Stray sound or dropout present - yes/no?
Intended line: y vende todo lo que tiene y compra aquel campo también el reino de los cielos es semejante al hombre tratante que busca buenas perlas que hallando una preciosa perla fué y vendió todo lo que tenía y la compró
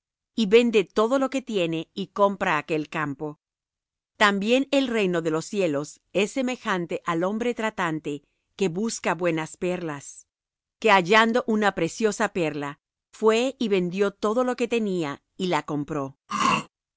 yes